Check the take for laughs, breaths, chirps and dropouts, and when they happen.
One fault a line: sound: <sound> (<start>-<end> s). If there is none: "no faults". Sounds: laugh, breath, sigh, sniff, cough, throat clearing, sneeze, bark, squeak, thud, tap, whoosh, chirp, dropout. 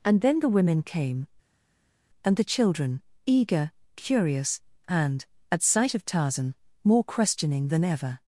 no faults